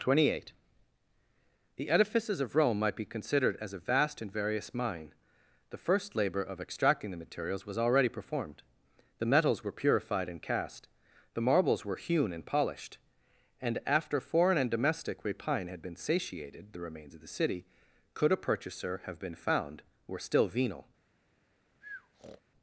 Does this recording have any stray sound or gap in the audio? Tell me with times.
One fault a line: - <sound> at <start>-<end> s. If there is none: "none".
- breath at 21.8-22.4 s